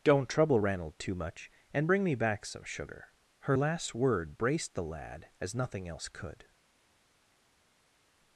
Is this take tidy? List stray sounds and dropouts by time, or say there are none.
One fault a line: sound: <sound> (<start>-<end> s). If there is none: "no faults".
no faults